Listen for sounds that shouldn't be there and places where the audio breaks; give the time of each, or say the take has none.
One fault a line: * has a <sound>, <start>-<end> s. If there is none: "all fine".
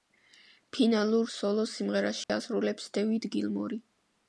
* has a dropout, 2.2-2.3 s